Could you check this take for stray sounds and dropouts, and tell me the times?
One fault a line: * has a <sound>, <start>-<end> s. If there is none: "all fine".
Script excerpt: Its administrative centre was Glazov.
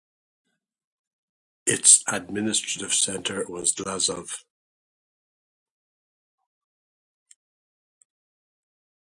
all fine